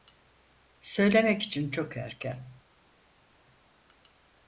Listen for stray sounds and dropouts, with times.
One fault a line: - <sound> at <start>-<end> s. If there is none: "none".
none